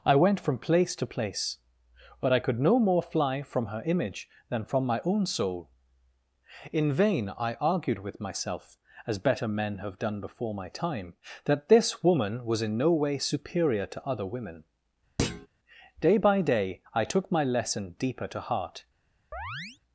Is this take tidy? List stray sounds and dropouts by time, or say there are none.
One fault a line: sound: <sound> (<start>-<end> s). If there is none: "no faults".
sound: thud (15.2-15.5 s)
sound: chirp (19.3-19.8 s)